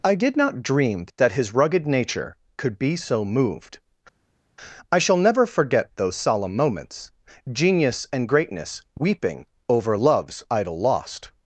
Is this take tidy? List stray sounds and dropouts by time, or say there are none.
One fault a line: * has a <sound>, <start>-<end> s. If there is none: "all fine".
all fine